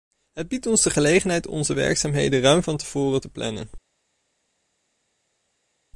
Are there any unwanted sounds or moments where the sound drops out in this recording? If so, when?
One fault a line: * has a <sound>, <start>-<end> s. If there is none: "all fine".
all fine